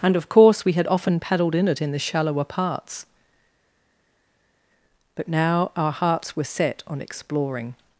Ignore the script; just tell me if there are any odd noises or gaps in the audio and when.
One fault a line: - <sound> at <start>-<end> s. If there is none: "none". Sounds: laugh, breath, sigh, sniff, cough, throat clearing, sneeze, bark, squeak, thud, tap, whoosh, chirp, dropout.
none